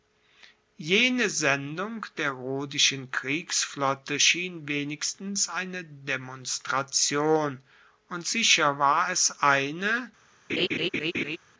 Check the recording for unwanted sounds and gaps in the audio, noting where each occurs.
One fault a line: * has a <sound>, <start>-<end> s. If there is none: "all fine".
* has a laugh, 10.5-11.4 s